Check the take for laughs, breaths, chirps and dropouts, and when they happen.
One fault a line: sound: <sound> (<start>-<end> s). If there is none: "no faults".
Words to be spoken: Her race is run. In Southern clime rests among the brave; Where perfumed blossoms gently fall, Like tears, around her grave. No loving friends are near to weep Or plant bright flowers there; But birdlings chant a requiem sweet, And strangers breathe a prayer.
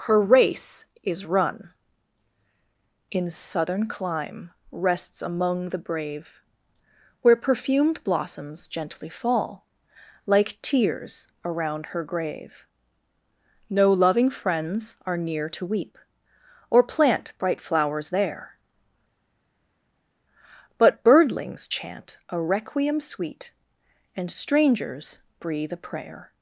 no faults